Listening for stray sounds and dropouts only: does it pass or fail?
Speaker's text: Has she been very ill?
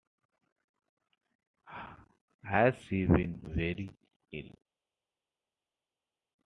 pass